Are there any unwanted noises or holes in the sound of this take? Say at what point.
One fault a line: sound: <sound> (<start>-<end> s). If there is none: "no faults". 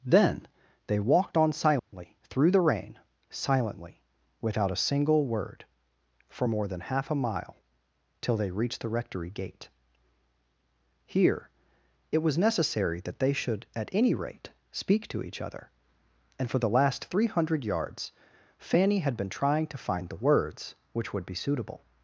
sound: dropout (1.8-1.9 s)